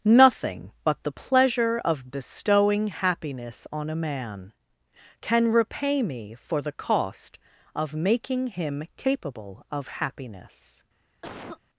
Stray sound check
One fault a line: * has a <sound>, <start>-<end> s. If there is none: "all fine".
* has a cough, 11.2-11.6 s